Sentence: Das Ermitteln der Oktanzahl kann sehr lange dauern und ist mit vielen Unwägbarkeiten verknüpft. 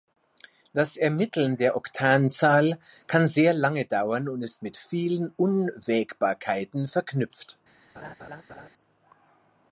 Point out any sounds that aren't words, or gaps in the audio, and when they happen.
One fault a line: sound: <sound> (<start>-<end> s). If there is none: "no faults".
sound: laugh (7.9-8.7 s)